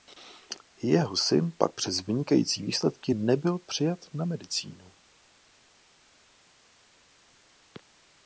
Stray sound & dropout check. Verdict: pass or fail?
pass